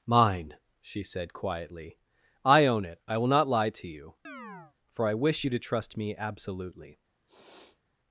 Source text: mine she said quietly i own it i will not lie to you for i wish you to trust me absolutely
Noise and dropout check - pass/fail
fail